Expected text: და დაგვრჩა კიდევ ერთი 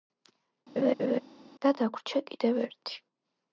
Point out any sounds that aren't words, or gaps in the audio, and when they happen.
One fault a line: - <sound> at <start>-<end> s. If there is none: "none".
- laugh at 0.8-1.2 s